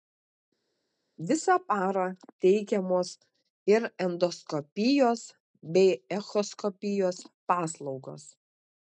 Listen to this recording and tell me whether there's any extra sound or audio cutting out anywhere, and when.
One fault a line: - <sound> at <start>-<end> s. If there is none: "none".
none